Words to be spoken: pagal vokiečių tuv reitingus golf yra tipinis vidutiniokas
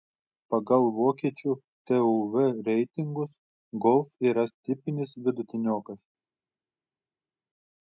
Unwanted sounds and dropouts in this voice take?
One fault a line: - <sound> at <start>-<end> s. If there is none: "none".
none